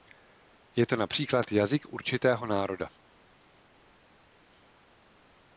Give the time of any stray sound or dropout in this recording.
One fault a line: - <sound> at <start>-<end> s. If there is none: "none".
none